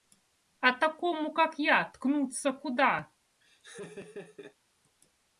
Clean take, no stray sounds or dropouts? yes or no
no